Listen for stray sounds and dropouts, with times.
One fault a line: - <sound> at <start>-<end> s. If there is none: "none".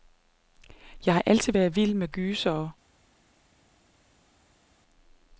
none